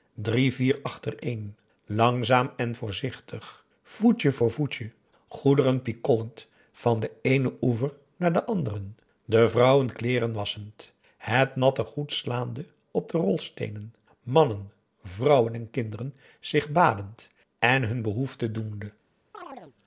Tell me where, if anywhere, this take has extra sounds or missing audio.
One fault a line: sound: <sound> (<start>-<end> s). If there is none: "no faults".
sound: chirp (19.3-19.8 s)